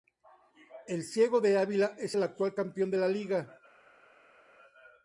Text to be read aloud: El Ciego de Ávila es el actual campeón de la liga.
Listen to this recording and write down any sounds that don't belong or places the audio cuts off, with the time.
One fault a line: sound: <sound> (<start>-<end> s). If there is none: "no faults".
no faults